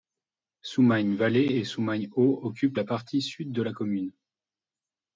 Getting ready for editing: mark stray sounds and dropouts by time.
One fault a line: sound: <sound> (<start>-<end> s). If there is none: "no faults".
no faults